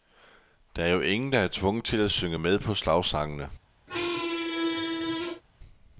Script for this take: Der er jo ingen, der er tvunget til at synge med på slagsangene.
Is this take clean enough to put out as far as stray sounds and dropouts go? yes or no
no